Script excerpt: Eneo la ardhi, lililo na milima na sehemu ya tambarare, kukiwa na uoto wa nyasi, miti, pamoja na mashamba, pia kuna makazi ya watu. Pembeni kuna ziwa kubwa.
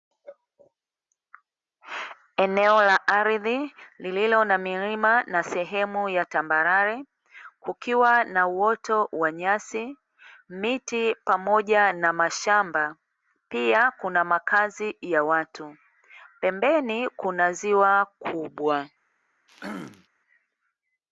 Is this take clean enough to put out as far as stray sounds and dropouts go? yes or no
no